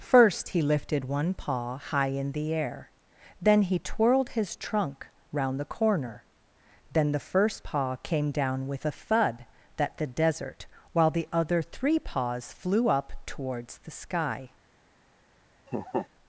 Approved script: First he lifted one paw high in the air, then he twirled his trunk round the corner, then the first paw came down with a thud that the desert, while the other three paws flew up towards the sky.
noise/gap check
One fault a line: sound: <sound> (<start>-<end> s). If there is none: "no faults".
sound: laugh (15.7-16.1 s)